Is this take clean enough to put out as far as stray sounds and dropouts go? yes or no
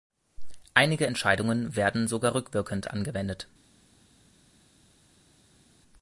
yes